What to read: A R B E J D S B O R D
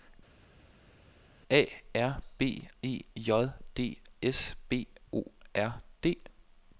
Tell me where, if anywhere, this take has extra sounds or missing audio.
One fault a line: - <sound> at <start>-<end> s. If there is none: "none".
none